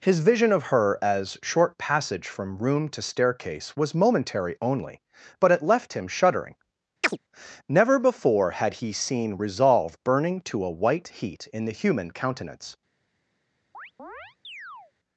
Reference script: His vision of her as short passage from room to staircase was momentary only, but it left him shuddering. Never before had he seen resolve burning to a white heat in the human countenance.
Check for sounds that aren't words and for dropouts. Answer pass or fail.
fail